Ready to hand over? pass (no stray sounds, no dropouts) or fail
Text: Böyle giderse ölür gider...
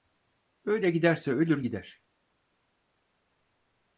pass